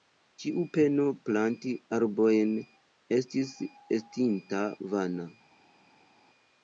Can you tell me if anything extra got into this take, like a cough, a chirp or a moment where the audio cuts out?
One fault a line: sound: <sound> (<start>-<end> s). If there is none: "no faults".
no faults